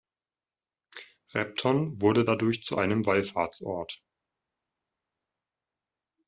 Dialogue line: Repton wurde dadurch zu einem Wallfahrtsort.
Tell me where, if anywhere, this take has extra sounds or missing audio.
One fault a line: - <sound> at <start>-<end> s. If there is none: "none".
none